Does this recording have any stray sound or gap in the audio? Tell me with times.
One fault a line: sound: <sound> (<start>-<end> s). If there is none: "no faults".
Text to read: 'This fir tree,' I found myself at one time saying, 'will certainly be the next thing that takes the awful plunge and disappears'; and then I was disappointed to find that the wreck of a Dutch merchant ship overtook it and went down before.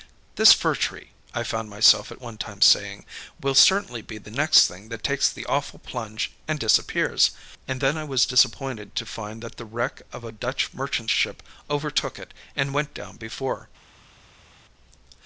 no faults